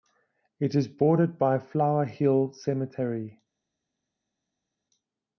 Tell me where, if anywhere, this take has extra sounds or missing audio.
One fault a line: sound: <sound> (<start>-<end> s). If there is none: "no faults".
no faults